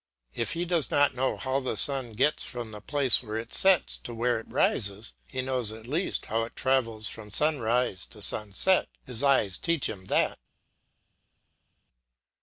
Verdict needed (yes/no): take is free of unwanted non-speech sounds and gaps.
yes